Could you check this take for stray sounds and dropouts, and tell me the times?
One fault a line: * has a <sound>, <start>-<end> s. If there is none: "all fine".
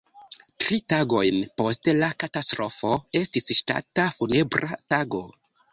all fine